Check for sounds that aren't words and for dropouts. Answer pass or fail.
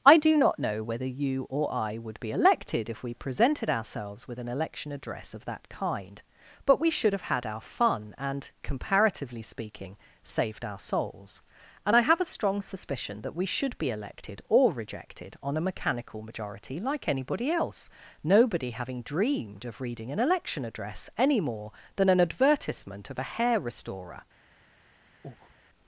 fail